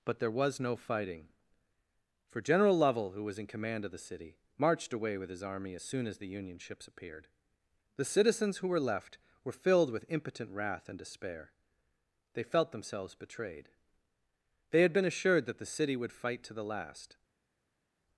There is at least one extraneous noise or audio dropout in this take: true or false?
false